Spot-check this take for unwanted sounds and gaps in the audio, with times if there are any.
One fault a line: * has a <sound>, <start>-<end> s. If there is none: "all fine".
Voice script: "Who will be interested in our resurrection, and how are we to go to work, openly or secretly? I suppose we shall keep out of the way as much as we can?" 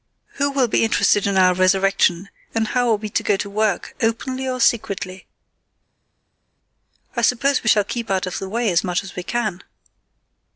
all fine